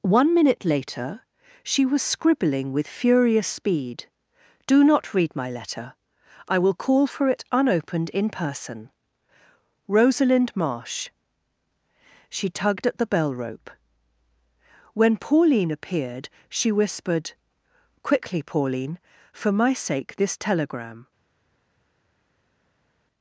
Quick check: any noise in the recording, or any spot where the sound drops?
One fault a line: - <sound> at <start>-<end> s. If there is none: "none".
none